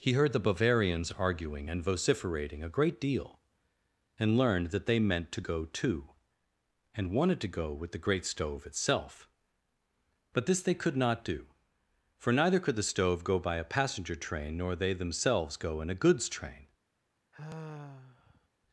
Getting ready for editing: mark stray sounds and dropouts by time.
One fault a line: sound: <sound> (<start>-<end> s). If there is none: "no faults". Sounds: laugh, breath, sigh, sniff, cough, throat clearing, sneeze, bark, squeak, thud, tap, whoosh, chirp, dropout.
sound: sigh (17.3-18.5 s)